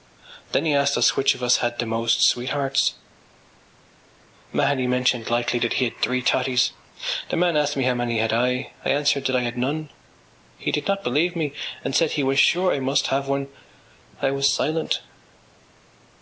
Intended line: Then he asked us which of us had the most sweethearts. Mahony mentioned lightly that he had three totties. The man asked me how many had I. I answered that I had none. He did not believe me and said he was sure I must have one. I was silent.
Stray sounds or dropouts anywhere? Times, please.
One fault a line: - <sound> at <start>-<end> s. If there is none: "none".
none